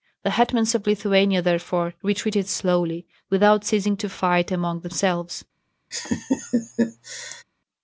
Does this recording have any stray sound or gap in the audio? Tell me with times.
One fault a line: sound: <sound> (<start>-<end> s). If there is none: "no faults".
sound: laugh (5.9-7.4 s)